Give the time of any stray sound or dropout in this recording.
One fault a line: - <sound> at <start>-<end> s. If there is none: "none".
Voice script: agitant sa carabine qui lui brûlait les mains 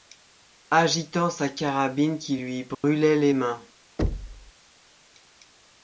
- dropout at 2.7-2.8 s
- thud at 4.0-4.5 s